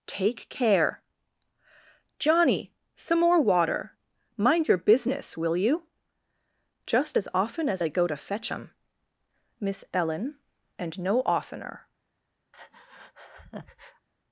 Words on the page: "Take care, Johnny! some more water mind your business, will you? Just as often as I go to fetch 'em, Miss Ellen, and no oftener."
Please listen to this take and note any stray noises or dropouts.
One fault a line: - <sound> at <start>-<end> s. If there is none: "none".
- breath at 12.5-14.1 s